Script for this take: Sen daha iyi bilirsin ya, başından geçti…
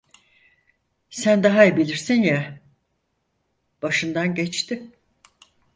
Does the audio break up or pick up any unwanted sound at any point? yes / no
no